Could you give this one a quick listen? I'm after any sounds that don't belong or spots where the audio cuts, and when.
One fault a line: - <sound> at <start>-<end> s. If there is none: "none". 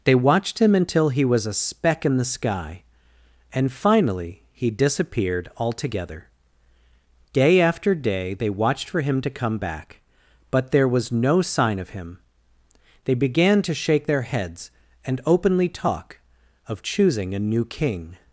none